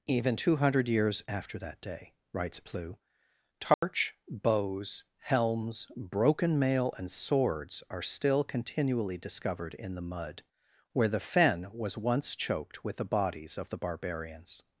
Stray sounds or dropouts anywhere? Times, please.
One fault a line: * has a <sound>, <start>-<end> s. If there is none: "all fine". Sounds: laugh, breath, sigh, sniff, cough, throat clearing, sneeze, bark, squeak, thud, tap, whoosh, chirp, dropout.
* has a dropout, 3.7-3.8 s